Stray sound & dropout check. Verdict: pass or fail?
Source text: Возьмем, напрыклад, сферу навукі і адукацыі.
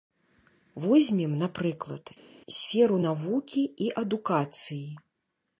pass